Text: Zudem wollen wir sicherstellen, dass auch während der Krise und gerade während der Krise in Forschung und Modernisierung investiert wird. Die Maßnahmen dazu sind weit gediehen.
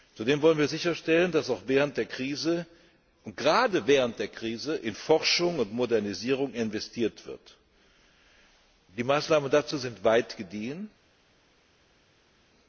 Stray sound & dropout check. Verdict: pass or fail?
pass